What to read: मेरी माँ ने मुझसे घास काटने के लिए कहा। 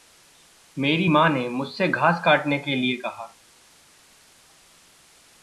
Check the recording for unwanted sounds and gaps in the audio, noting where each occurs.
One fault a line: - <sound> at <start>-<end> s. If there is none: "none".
none